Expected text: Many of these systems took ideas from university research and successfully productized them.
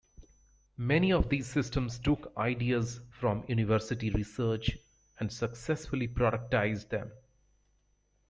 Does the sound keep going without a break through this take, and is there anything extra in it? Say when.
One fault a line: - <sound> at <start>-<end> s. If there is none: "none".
none